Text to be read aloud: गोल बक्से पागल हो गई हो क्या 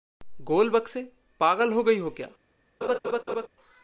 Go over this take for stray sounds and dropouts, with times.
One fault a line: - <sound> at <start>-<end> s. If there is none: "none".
- laugh at 2.8-3.5 s